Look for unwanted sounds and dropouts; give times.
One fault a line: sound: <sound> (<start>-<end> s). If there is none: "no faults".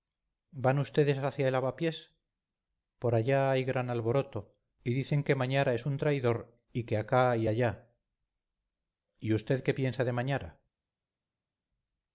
no faults